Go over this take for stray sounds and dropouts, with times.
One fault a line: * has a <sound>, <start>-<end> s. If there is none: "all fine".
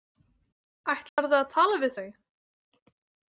* has a dropout, 1.1-1.2 s